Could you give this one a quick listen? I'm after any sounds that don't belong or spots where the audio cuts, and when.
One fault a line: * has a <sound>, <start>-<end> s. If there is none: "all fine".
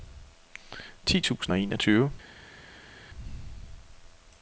all fine